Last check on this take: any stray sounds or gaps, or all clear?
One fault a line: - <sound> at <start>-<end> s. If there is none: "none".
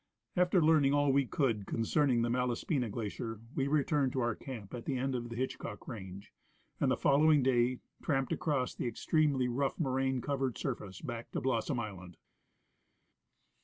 none